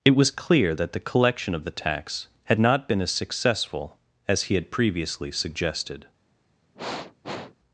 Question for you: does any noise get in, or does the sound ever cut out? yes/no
yes